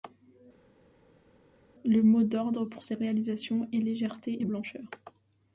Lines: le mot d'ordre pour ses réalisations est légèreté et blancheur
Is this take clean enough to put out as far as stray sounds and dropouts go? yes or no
yes